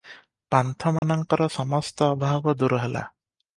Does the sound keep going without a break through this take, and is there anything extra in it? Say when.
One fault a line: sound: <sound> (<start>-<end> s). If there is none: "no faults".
sound: dropout (1.0-1.0 s)